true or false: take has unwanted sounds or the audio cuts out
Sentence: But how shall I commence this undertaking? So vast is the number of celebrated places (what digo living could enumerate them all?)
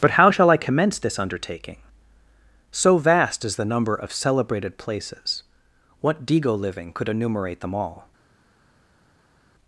false